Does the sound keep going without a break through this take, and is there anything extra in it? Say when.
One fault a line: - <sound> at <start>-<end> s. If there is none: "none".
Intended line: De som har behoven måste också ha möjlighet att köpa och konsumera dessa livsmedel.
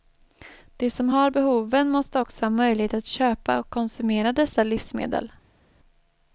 none